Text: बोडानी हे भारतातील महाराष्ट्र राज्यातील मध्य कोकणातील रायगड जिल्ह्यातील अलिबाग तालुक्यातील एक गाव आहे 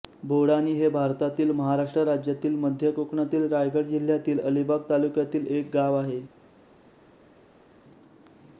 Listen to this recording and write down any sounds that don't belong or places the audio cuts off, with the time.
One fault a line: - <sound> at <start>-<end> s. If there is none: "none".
none